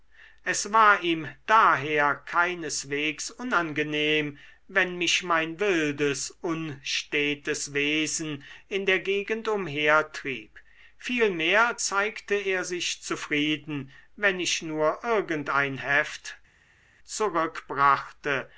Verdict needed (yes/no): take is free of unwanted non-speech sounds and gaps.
yes